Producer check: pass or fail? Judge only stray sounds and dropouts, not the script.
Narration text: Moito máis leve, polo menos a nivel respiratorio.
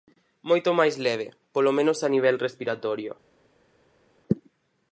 pass